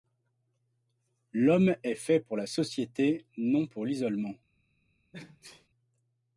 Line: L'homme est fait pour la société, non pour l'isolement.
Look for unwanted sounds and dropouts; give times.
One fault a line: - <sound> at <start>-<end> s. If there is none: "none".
- sneeze at 5.1-5.7 s